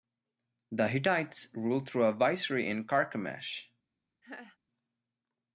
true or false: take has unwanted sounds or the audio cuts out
true